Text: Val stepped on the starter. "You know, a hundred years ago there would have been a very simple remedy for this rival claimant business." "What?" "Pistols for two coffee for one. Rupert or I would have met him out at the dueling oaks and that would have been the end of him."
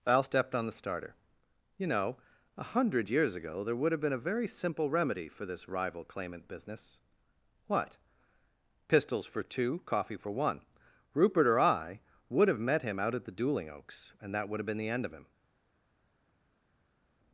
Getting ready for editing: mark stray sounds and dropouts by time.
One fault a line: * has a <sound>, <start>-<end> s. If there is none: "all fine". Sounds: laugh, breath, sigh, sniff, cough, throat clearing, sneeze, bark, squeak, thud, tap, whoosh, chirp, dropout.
all fine